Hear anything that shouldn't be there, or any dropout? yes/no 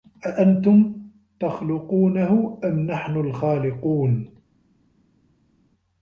no